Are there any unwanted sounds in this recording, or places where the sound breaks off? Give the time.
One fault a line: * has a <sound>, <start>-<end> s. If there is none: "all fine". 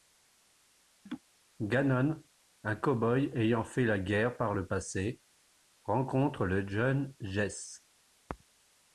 * has a laugh, 1.1-1.2 s